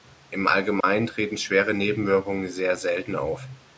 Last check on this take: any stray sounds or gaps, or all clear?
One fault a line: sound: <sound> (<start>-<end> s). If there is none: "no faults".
sound: dropout (0.8-0.8 s)